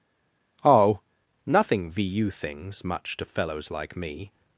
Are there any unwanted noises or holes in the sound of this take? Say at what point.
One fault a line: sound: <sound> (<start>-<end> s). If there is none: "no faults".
no faults